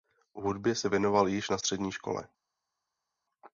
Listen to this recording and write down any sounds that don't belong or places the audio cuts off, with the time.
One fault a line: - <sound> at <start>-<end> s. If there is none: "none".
none